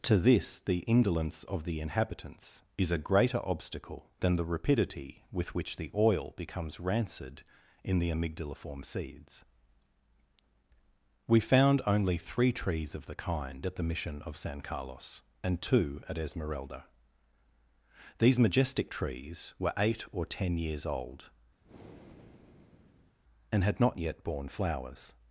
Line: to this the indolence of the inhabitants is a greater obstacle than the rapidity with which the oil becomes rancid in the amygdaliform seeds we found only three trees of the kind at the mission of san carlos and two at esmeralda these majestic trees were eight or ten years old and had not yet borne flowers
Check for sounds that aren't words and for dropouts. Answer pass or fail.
fail